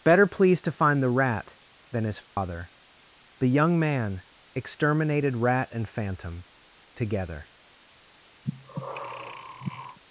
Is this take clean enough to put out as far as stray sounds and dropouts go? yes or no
no